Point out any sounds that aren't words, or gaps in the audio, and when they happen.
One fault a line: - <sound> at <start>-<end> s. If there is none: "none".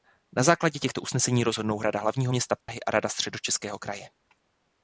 - dropout at 2.6-2.7 s